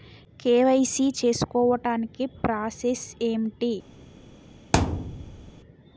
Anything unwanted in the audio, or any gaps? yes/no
yes